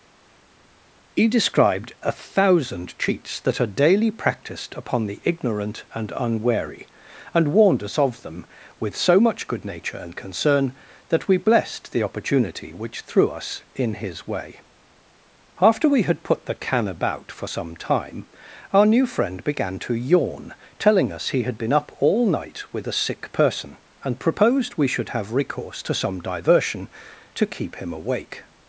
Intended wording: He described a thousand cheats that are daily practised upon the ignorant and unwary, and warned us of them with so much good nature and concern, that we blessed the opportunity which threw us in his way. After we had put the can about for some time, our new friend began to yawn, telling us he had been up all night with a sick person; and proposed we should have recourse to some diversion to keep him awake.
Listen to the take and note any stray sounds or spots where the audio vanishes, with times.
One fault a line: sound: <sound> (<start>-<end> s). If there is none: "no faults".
no faults